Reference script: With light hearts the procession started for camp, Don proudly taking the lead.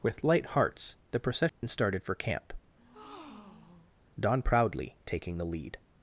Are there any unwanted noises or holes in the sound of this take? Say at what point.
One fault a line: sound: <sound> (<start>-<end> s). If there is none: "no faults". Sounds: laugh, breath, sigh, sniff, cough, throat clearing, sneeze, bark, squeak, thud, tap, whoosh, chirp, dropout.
sound: dropout (1.5-1.6 s)
sound: breath (2.8-3.9 s)